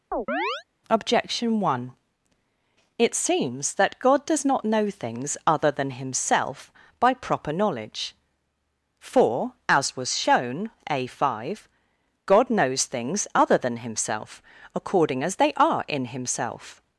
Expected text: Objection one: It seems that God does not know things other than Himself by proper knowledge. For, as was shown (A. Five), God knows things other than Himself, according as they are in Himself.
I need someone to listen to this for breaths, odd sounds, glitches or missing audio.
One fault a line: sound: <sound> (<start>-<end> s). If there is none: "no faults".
sound: chirp (0.1-0.6 s)